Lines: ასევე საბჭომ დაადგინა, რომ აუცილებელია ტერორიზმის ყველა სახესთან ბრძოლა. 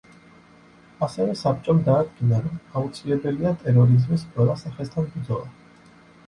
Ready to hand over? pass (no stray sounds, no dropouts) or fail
pass